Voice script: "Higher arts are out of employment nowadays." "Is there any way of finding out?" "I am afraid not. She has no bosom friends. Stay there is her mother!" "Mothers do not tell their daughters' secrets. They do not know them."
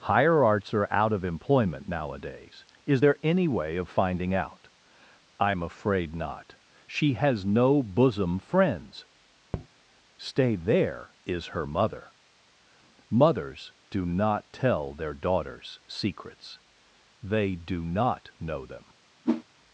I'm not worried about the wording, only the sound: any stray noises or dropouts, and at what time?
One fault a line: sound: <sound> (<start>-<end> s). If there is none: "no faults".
sound: tap (9.5-9.7 s)
sound: whoosh (19.2-19.4 s)